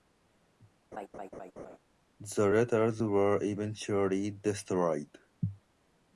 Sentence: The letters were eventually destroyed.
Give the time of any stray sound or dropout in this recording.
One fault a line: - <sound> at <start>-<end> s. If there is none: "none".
- laugh at 0.9-1.8 s